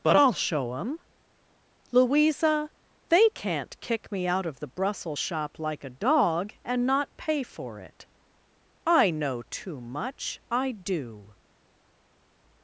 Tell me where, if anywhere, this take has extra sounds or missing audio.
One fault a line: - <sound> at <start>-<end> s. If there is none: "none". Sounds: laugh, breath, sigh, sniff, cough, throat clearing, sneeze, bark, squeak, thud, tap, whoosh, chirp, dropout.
none